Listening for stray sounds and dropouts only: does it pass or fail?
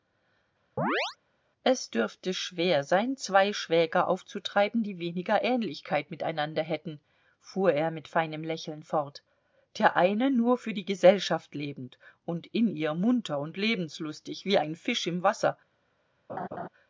fail